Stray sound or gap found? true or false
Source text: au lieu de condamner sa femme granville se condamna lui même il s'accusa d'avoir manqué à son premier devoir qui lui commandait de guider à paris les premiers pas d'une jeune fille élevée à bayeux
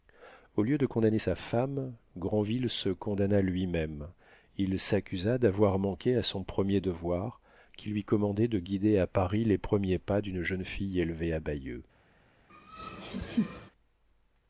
true